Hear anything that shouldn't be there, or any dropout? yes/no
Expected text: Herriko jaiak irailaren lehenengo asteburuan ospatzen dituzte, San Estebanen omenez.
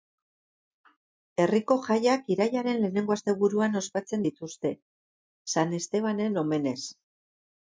no